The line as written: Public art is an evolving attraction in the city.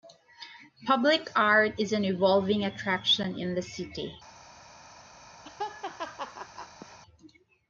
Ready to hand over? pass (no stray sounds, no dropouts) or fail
fail